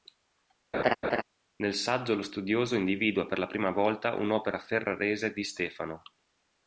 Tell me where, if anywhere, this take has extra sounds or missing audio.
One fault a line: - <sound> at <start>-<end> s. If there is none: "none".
- laugh at 0.7-1.2 s